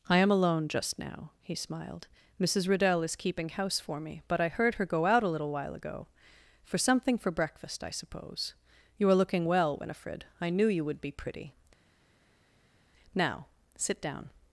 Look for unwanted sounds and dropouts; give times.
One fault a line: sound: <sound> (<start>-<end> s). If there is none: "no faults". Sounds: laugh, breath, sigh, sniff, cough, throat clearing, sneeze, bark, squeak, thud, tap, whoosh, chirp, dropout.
no faults